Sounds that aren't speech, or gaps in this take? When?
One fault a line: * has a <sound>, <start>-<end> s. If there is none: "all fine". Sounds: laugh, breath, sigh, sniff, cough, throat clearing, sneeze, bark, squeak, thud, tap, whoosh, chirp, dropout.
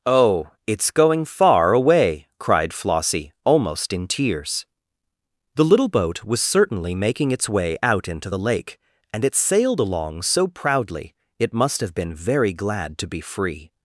all fine